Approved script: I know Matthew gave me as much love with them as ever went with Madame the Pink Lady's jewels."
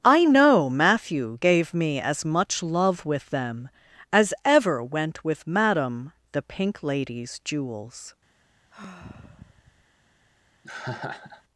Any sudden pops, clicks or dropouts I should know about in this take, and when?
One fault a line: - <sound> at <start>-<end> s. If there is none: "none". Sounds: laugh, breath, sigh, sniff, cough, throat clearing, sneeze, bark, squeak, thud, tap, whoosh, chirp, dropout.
- sigh at 8.7-9.9 s
- laugh at 10.6-11.4 s